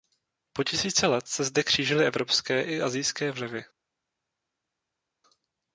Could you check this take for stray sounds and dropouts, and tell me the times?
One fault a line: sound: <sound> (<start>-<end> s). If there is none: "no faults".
no faults